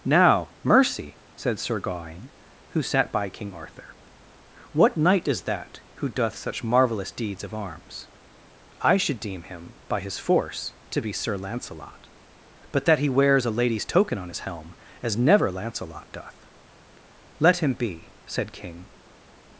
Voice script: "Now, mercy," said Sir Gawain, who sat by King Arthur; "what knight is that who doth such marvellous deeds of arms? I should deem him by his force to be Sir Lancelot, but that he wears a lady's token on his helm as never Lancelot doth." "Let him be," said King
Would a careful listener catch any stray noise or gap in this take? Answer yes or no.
no